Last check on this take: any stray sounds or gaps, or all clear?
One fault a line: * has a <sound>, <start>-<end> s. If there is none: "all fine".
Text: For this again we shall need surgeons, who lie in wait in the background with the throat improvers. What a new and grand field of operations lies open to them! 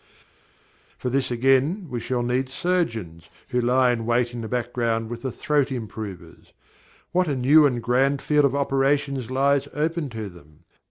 all fine